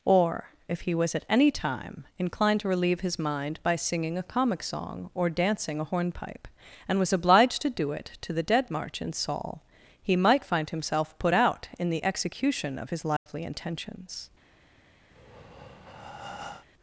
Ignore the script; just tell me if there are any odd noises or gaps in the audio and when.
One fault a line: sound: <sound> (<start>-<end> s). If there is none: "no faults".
sound: dropout (13.2-13.3 s)
sound: breath (15.1-16.7 s)